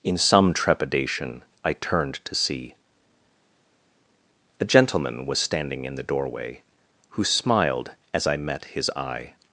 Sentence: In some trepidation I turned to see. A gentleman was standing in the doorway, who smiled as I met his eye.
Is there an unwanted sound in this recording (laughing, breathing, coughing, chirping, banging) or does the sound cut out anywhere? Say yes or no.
no